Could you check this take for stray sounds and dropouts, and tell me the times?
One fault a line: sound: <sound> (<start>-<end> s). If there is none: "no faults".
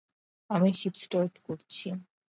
no faults